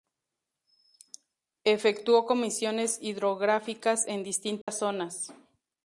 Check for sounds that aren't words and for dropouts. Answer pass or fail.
fail